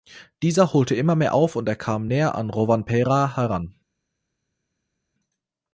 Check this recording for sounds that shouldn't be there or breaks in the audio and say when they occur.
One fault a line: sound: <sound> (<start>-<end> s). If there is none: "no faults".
no faults